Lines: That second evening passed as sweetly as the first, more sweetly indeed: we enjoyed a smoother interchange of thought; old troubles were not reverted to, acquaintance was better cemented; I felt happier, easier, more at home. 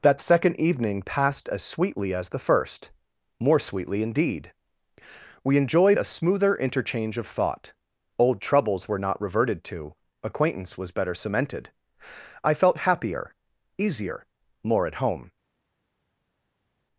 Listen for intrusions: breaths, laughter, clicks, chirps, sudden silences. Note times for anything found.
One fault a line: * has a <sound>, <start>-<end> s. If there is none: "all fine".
all fine